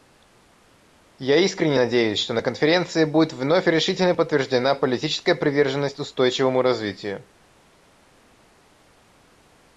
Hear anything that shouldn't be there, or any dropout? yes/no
no